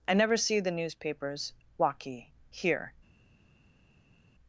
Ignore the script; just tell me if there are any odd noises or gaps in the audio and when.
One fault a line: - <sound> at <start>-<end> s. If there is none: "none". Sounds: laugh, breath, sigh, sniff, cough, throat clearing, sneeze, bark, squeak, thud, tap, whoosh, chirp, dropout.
none